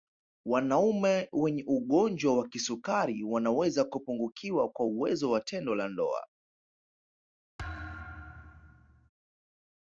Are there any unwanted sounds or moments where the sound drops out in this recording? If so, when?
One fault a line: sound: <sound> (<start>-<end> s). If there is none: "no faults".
sound: thud (7.6-9.1 s)